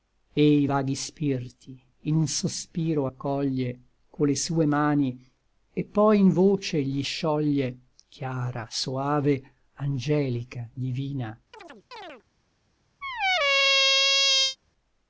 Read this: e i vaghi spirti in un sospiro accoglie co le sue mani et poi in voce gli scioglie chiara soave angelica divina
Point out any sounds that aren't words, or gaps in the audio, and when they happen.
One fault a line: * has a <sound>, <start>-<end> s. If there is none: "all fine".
* has a chirp, 11.5-12.2 s
* has a squeak, 13.0-14.6 s